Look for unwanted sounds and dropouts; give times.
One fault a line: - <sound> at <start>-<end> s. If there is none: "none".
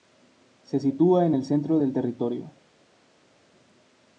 none